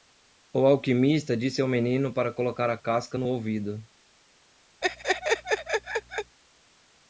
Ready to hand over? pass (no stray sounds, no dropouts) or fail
fail